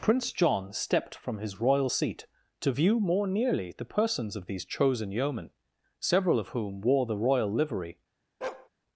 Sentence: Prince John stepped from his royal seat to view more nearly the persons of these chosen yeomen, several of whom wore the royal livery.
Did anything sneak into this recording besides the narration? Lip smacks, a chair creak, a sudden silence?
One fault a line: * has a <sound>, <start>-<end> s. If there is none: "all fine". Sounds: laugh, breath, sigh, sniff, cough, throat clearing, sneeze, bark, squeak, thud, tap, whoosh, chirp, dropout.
* has a bark, 8.4-8.7 s